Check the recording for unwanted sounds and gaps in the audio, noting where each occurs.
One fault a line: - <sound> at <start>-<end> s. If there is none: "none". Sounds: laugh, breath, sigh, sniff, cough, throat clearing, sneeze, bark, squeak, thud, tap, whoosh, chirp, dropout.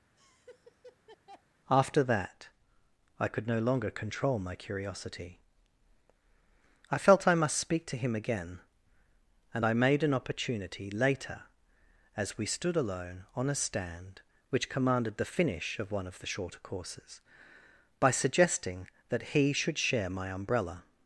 - laugh at 0.2-1.4 s